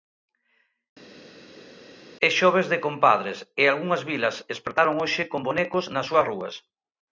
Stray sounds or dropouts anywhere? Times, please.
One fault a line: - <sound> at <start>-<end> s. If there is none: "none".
none